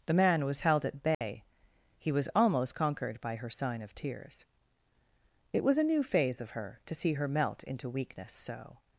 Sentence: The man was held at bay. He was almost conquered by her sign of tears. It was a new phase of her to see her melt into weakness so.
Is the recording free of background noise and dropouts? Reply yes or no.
no